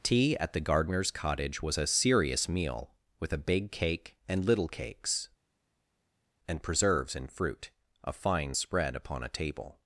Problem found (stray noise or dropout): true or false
false